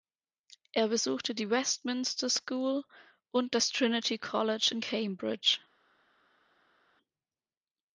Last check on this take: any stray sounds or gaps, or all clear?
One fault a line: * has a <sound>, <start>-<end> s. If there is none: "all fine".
all fine